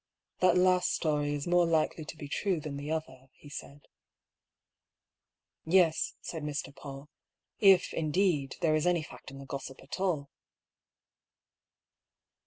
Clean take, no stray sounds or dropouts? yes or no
yes